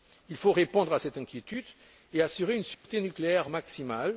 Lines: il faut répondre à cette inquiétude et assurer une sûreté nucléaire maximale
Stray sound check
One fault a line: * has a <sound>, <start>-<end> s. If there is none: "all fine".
* has a dropout, 2.7-2.8 s